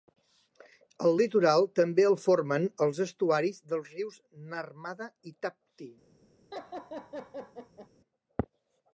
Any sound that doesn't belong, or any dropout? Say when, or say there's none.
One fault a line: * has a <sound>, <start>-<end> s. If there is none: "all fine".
* has a laugh, 6.5-7.9 s